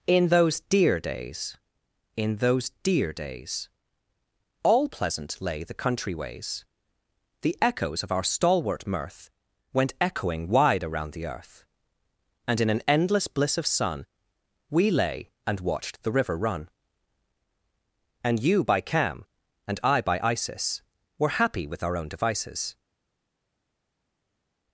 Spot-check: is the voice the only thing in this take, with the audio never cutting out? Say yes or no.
yes